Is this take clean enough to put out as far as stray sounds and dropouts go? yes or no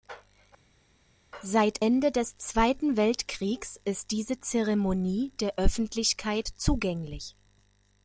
yes